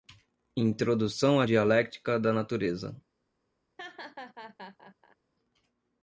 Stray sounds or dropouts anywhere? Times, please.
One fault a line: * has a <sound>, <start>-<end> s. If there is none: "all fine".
* has a laugh, 3.8-5.2 s